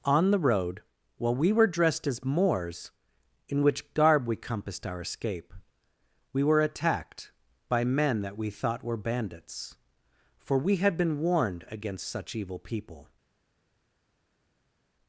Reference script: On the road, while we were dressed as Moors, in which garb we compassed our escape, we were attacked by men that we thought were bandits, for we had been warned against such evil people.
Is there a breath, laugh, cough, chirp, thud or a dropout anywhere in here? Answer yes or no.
no